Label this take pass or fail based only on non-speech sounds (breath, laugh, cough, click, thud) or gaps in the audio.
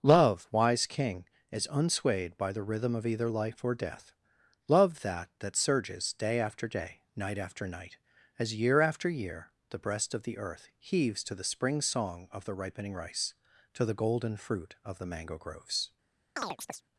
fail